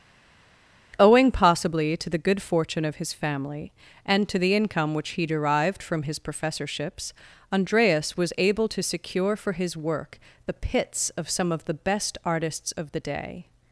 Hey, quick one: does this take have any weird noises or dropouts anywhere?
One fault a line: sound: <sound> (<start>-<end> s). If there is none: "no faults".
no faults